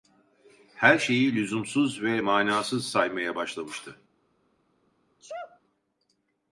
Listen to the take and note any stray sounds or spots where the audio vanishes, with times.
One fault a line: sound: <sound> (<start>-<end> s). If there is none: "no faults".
sound: sneeze (5.2-5.6 s)